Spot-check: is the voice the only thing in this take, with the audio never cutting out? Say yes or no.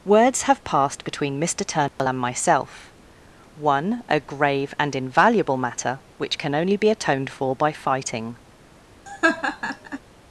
no